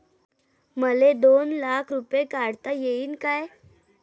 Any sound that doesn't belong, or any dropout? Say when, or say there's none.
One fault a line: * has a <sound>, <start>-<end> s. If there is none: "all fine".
all fine